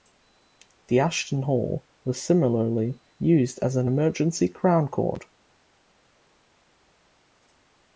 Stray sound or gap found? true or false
false